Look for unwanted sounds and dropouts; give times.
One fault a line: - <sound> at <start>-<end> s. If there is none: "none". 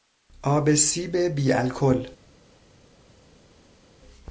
none